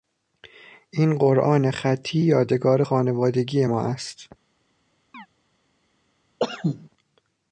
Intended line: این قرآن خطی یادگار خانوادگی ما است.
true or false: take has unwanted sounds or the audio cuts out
true